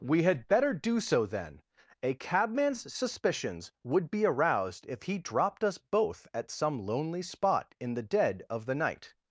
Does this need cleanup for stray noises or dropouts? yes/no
no